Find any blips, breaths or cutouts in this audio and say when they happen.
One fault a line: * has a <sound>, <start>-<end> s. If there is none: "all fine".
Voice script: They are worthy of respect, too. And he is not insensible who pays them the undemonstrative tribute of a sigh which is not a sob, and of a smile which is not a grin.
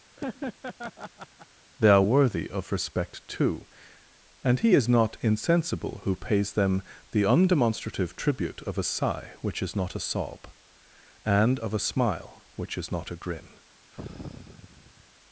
* has a laugh, 0.2-1.5 s
* has a sigh, 13.9-15.1 s